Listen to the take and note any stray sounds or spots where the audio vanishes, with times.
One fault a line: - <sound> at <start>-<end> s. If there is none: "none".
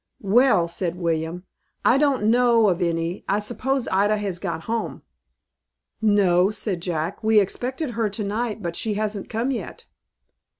none